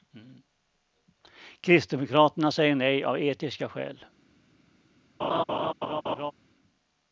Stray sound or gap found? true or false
true